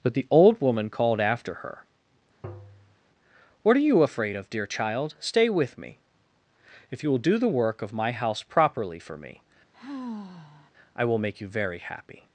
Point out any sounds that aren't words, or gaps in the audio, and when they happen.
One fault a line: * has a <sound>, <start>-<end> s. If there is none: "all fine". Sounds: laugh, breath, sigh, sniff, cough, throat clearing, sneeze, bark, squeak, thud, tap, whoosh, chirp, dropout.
* has a tap, 2.4-3.0 s
* has a sigh, 9.7-10.7 s